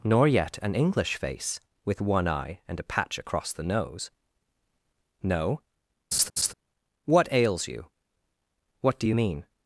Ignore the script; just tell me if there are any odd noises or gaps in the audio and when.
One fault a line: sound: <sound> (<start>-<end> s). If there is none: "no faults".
sound: laugh (6.1-6.5 s)